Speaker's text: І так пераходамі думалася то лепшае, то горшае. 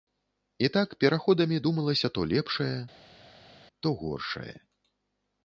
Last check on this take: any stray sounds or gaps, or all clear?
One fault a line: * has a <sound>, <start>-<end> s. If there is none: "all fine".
all fine